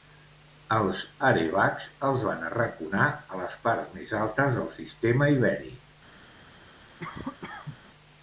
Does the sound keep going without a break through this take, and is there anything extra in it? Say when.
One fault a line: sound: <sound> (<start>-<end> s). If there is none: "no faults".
sound: cough (7.0-7.8 s)